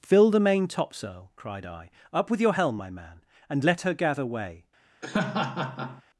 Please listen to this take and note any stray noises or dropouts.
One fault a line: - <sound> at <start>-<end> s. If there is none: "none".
- laugh at 5.0-6.0 s